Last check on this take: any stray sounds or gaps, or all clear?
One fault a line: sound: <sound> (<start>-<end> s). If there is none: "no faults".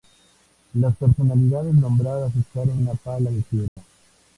sound: dropout (3.7-3.8 s)